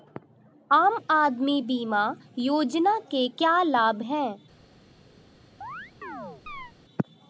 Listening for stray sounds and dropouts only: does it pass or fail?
fail